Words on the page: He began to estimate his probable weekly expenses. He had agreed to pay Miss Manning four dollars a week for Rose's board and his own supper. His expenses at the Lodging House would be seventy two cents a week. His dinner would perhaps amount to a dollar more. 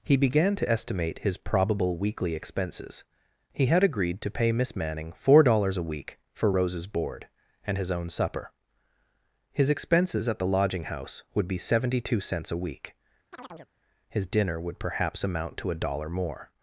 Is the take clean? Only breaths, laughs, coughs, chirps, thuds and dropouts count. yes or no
no